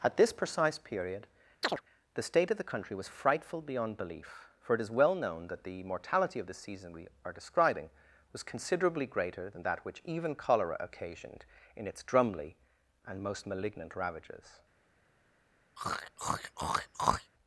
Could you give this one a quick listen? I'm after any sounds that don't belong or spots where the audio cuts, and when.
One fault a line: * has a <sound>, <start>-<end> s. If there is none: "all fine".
* has a chirp, 1.6-1.8 s
* has a throat clearing, 15.8-17.3 s